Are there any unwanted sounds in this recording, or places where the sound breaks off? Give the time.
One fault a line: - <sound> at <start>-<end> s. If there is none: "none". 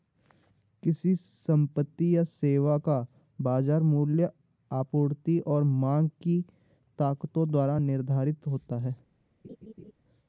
- laugh at 9.4-9.9 s